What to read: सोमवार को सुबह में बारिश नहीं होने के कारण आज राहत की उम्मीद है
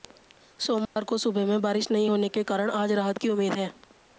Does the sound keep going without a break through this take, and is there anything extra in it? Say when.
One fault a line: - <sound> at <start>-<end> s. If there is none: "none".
- dropout at 0.8-1.0 s